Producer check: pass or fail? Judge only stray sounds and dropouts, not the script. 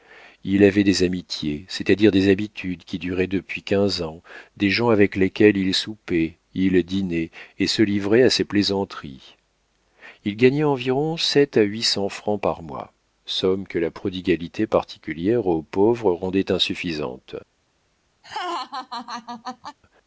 fail